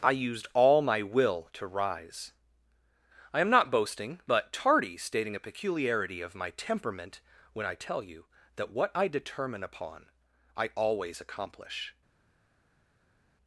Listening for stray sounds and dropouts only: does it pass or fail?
pass